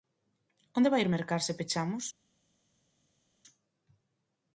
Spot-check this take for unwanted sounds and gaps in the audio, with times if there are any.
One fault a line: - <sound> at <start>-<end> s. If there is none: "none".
none